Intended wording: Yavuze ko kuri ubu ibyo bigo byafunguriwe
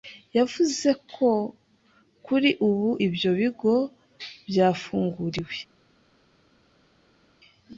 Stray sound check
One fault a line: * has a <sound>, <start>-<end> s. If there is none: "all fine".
all fine